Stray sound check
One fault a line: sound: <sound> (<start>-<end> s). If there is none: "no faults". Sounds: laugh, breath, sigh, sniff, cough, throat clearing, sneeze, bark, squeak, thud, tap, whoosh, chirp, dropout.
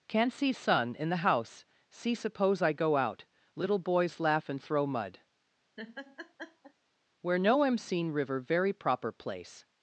sound: laugh (5.8-6.7 s)